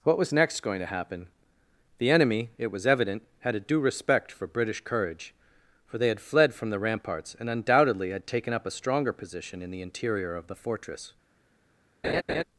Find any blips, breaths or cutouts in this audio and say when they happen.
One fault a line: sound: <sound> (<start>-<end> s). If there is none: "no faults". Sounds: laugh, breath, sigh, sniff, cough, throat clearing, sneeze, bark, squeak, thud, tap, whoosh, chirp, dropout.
sound: laugh (12.0-12.4 s)